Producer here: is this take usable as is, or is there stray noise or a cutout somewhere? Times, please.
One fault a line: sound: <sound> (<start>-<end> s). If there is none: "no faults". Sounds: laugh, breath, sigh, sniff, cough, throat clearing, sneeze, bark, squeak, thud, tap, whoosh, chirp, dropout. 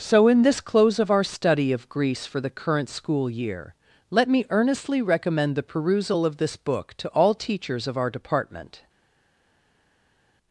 no faults